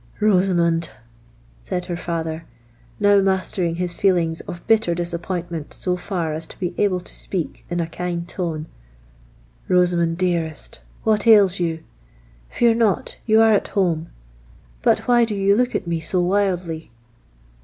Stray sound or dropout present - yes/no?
no